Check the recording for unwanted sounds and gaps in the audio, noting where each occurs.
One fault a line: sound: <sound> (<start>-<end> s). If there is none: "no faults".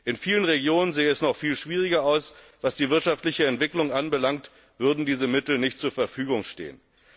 no faults